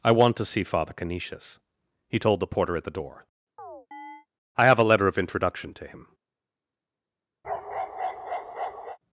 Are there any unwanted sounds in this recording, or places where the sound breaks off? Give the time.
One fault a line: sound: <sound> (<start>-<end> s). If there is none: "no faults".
sound: chirp (3.6-4.3 s)
sound: bark (7.4-9.0 s)